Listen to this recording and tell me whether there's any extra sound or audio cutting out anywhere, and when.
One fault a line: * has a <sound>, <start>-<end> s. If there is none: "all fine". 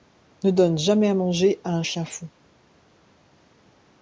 all fine